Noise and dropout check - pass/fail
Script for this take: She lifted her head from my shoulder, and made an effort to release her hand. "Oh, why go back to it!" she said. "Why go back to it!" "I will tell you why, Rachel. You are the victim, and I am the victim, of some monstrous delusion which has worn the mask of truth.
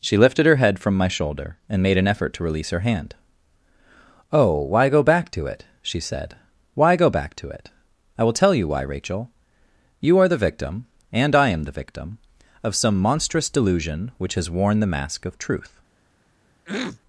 fail